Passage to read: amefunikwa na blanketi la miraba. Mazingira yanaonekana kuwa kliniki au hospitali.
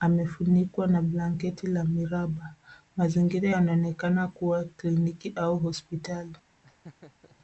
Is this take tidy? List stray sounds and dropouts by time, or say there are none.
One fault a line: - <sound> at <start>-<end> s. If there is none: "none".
- laugh at 6.6-7.4 s